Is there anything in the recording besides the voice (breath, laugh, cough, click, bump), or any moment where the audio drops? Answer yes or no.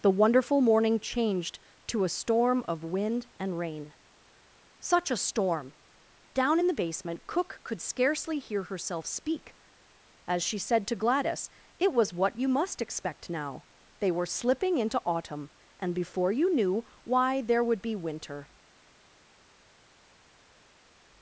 no